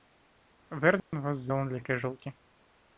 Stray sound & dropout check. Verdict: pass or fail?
fail